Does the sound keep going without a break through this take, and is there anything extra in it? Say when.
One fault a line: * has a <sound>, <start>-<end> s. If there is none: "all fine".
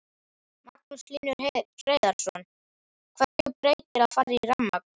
* has a dropout, 3.3-3.4 s